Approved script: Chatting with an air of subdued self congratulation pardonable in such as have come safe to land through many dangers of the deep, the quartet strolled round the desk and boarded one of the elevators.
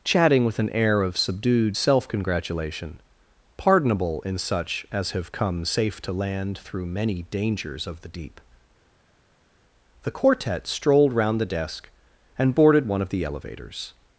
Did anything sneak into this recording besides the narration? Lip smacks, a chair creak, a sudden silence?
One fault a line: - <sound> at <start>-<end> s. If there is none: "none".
none